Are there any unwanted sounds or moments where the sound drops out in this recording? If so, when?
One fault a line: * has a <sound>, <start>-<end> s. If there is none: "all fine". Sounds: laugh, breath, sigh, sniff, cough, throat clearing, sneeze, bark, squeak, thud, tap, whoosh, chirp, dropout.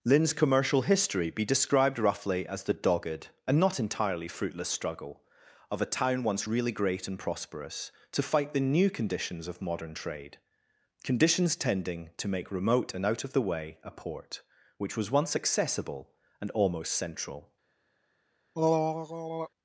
* has a throat clearing, 18.5-19.5 s